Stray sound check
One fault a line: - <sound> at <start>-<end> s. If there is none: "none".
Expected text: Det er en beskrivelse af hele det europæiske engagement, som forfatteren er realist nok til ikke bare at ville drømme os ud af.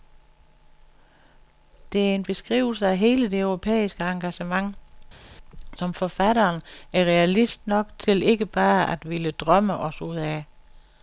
none